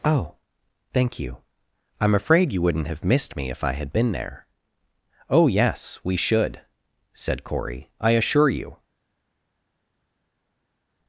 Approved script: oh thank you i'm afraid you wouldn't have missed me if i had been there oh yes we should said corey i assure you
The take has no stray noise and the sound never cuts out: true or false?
true